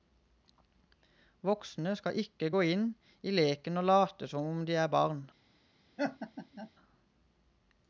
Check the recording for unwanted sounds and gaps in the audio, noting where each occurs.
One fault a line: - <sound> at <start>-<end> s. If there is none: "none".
- laugh at 6.0-6.7 s